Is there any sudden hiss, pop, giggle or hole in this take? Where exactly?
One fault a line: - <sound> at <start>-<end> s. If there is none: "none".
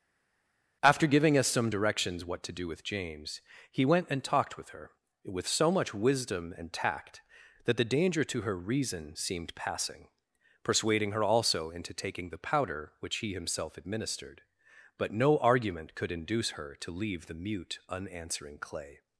none